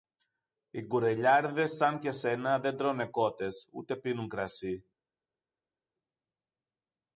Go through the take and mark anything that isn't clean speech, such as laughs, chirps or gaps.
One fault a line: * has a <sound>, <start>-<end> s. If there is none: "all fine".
all fine